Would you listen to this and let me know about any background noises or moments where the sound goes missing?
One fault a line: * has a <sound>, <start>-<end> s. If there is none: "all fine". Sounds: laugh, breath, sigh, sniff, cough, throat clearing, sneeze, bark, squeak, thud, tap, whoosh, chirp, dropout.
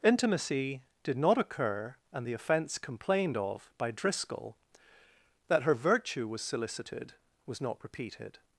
all fine